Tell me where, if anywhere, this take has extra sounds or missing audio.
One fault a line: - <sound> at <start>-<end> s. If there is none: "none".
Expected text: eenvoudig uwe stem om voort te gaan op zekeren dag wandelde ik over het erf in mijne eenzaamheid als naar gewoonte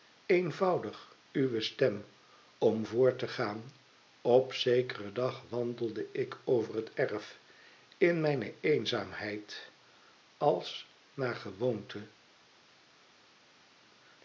none